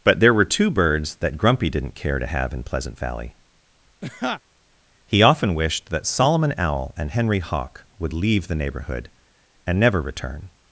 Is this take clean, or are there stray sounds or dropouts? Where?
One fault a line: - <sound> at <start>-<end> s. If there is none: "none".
- laugh at 4.0-4.4 s